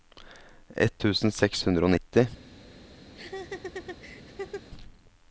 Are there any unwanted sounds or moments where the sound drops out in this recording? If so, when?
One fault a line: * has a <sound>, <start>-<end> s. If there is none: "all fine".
* has a laugh, 3.1-4.7 s